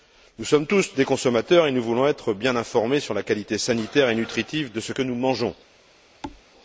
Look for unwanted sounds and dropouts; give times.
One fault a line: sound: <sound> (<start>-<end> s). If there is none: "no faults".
sound: thud (6.2-6.4 s)